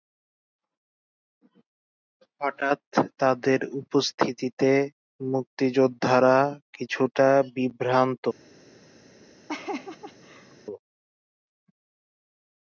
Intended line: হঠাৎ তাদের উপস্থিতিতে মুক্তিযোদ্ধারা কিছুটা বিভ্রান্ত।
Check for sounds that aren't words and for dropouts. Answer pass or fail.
fail